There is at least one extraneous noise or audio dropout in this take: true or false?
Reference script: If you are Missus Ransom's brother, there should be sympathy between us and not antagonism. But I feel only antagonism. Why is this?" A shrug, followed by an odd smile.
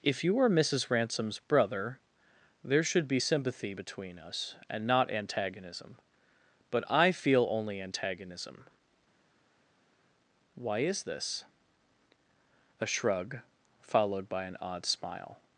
false